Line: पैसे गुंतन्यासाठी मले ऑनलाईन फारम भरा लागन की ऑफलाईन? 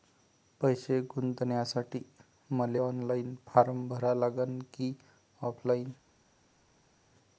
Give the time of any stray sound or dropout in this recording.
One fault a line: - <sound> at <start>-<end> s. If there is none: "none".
none